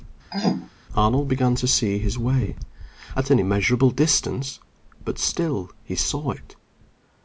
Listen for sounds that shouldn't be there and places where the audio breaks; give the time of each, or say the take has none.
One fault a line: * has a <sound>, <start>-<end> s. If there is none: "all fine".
* has a throat clearing, 0.3-0.7 s